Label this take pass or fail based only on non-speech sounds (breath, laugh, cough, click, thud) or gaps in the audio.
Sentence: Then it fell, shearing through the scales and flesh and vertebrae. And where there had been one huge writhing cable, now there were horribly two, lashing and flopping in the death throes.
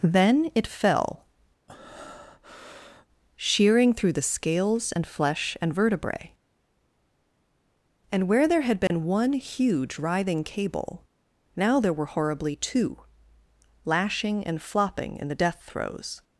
fail